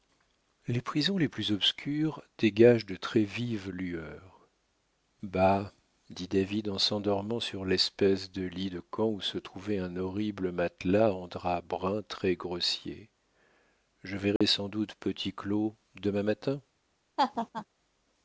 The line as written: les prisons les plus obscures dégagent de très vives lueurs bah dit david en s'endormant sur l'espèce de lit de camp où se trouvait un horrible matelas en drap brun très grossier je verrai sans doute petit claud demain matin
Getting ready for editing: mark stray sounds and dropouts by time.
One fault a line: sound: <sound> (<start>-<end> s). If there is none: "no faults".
sound: dropout (14.4-14.4 s)
sound: laugh (17.2-17.7 s)